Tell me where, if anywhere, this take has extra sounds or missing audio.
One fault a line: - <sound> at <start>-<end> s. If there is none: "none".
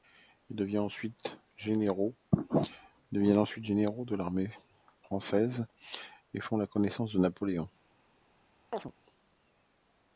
- chirp at 8.7-8.9 s